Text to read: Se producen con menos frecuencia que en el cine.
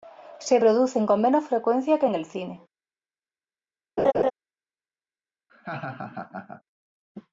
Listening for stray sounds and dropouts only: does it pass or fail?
fail